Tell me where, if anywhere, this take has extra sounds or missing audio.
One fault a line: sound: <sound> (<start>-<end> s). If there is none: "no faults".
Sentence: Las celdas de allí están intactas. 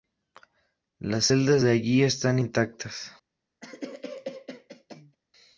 sound: cough (3.6-5.2 s)